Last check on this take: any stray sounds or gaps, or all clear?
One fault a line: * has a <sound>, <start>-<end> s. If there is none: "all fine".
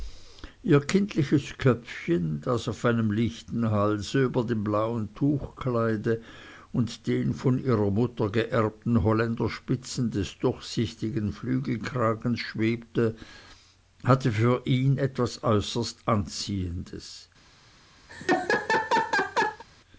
* has a laugh, 18.1-19.6 s